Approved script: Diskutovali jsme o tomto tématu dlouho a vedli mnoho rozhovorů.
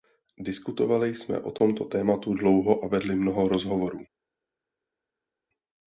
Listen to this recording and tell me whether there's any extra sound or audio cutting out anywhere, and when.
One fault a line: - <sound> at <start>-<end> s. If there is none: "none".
none